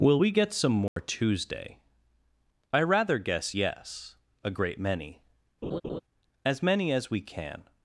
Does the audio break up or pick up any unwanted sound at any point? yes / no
yes